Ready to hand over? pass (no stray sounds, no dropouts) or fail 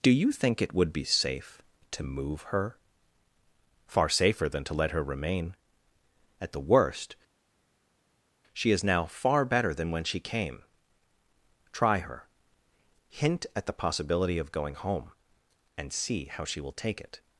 pass